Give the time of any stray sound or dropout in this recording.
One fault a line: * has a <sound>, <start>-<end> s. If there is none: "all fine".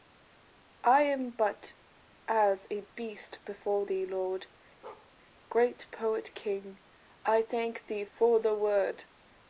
* has a bark, 4.8-5.1 s